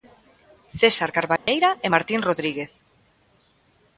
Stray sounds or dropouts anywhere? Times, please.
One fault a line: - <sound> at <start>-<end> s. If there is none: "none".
- dropout at 1.4-1.5 s